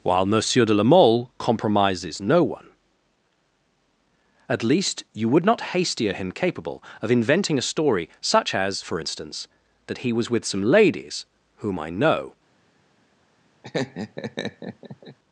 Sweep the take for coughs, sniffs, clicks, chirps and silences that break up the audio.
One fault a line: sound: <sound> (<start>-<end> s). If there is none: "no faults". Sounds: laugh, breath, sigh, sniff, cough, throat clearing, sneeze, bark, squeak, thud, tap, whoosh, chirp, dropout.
sound: laugh (13.6-15.2 s)